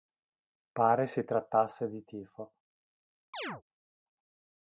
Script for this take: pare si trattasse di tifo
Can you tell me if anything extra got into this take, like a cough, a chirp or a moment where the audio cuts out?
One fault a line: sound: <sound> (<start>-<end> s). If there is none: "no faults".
sound: chirp (3.3-3.6 s)